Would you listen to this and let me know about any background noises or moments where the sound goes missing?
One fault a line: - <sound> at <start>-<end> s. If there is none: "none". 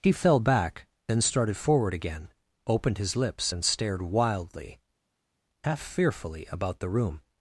none